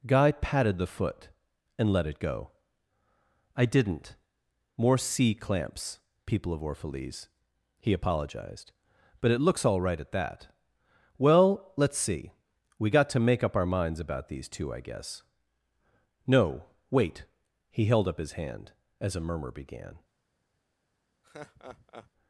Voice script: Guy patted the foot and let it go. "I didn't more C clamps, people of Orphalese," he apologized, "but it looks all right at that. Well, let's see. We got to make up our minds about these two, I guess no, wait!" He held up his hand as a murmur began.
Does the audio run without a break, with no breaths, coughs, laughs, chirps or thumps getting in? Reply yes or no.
no